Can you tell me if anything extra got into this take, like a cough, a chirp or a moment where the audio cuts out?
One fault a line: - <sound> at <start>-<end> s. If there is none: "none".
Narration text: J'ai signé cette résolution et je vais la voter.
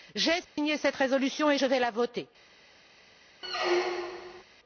- dropout at 0.4-0.6 s
- squeak at 3.4-4.4 s